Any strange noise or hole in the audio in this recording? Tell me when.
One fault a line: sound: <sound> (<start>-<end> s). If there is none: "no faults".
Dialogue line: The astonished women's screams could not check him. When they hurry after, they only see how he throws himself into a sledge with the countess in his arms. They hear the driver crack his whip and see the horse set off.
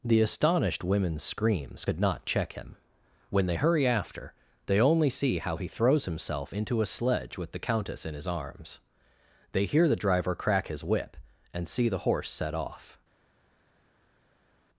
no faults